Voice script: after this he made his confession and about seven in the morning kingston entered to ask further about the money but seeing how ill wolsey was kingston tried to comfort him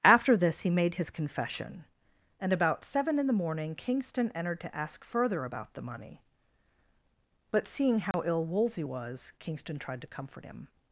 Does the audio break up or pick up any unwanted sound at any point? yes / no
yes